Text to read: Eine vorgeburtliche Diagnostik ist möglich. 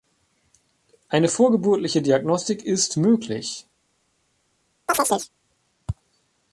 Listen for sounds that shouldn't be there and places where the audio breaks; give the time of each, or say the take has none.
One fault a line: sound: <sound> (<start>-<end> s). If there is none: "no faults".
sound: chirp (4.9-5.3 s)